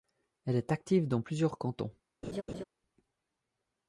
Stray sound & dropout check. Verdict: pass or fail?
fail